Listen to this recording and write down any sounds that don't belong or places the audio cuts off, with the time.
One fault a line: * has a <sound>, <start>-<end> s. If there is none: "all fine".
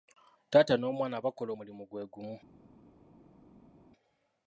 all fine